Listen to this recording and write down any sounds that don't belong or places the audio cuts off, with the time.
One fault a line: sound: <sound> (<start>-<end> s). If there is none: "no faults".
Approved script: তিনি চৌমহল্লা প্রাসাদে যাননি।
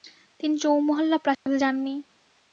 sound: dropout (1.3-1.5 s)